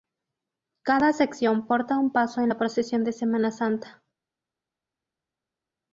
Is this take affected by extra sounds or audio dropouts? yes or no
no